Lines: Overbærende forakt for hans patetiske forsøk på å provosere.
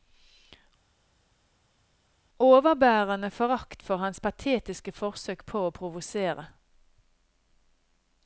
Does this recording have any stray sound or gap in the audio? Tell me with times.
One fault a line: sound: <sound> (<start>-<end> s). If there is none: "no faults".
no faults